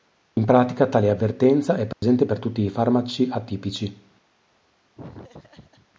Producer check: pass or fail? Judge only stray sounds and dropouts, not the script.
fail